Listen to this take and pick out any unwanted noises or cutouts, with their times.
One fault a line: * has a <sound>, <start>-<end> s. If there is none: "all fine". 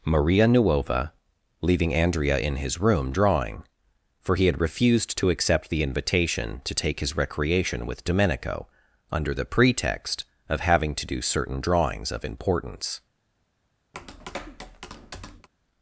* has a tap, 13.9-15.5 s